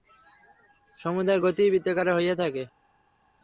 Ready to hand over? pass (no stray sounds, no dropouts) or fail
pass